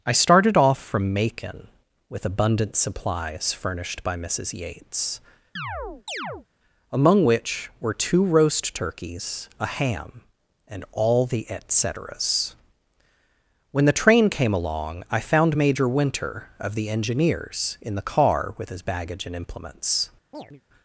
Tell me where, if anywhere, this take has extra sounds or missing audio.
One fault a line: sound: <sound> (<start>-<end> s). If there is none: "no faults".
sound: chirp (5.6-6.5 s)
sound: chirp (20.3-20.6 s)